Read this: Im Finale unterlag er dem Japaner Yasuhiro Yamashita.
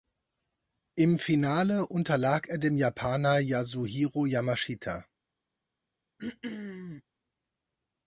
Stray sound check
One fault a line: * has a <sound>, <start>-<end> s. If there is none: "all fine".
* has a throat clearing, 6.2-7.0 s